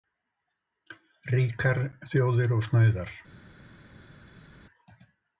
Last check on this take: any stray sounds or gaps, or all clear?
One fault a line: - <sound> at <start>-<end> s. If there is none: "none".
none